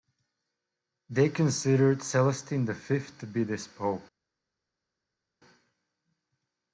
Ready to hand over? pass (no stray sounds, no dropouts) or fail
pass